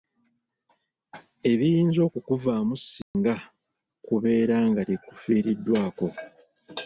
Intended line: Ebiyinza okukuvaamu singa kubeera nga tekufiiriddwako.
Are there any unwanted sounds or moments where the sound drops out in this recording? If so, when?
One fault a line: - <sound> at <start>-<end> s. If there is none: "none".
- dropout at 3.0-3.1 s